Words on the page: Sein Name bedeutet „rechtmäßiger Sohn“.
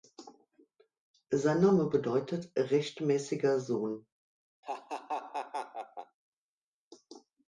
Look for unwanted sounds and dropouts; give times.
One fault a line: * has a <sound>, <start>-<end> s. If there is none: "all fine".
* has a laugh, 4.6-6.2 s